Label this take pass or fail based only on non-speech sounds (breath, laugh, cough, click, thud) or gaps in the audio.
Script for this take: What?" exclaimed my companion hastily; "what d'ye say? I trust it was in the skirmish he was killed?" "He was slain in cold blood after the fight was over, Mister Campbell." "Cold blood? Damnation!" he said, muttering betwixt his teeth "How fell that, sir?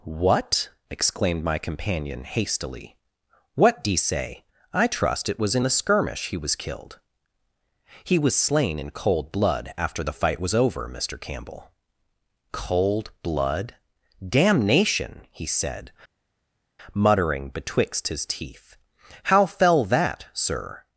pass